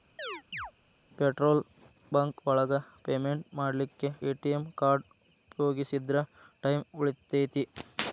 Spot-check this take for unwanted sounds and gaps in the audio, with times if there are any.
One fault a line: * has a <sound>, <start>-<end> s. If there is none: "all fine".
* has a chirp, 0.2-0.7 s